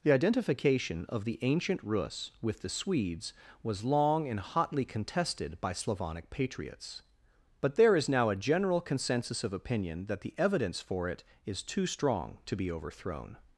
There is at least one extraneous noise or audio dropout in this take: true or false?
false